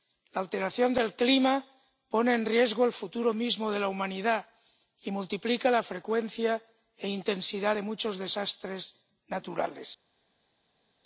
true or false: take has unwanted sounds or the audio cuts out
false